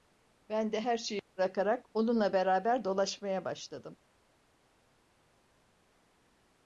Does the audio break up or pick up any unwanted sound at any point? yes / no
no